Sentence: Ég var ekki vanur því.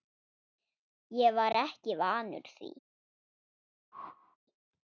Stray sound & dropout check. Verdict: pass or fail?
fail